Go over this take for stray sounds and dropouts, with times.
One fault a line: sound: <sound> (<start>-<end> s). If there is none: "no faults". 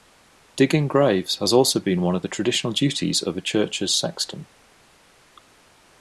no faults